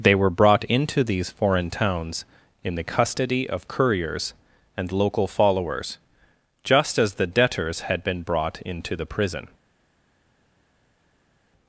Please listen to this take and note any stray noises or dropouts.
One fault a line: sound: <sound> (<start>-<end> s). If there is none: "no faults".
no faults